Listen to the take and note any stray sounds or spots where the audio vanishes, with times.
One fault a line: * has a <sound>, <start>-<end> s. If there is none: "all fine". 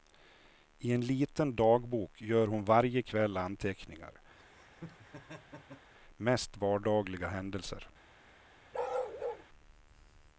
* has a laugh, 4.4-5.9 s
* has a bark, 8.7-9.5 s